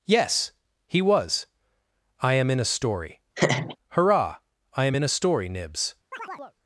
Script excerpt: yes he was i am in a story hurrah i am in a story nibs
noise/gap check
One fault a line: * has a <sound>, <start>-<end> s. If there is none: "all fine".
* has a laugh, 3.4-3.8 s
* has a chirp, 6.1-6.6 s